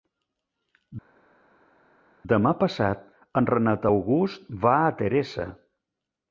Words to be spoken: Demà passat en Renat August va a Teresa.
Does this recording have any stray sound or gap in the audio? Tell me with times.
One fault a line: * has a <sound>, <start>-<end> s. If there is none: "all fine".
all fine